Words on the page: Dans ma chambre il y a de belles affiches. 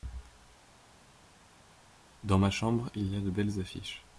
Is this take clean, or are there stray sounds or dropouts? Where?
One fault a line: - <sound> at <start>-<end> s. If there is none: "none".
none